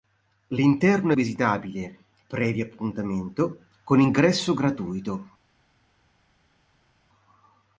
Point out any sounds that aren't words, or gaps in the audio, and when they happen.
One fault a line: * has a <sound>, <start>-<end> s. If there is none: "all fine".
all fine